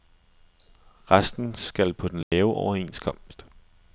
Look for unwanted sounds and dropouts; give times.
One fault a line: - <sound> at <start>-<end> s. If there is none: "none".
- dropout at 2.2-2.3 s